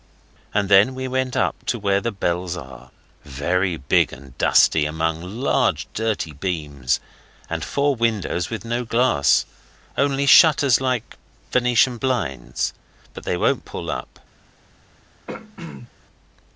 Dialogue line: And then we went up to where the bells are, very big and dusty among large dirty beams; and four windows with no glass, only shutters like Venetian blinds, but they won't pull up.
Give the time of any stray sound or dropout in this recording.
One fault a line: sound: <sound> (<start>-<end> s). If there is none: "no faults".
sound: throat clearing (15.3-15.9 s)